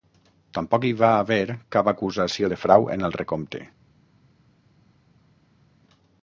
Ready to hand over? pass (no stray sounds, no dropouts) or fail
pass